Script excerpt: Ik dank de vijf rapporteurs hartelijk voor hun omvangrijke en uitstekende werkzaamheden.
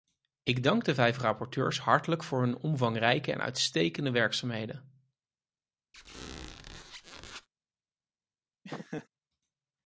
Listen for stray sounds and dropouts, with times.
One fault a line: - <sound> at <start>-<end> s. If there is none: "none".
- squeak at 5.9-7.5 s
- laugh at 8.6-9.1 s